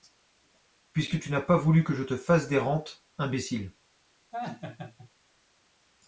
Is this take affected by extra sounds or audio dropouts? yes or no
yes